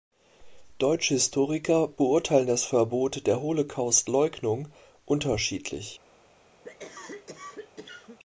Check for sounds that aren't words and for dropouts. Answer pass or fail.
fail